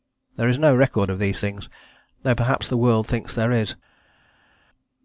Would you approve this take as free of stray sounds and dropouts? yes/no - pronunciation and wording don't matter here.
yes